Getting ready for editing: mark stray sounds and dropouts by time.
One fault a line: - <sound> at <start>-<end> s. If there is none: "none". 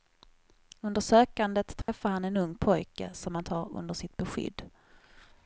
- dropout at 1.8-1.9 s